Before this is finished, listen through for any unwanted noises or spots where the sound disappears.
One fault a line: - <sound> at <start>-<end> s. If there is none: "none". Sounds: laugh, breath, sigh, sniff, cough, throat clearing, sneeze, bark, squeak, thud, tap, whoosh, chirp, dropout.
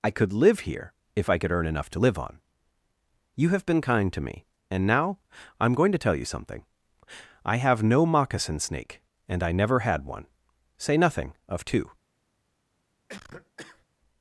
- cough at 13.1-13.9 s